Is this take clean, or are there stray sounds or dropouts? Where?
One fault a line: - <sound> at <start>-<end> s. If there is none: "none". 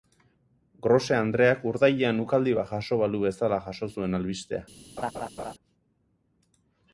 - laugh at 5.0-5.5 s